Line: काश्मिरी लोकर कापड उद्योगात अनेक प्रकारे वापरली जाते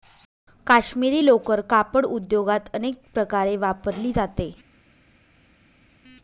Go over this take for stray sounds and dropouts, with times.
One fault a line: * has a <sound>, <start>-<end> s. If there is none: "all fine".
all fine